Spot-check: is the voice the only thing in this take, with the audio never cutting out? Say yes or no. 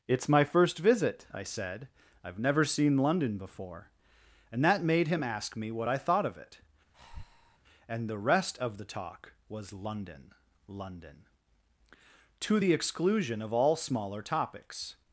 no